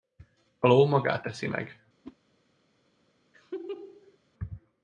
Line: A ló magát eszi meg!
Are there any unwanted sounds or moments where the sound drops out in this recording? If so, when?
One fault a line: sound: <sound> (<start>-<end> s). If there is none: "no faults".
sound: whoosh (2.0-2.2 s)
sound: laugh (3.3-4.2 s)